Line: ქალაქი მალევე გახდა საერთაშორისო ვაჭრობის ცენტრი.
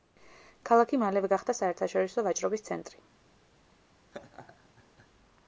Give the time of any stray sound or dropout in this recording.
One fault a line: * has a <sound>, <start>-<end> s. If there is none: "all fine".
* has a laugh, 4.1-5.1 s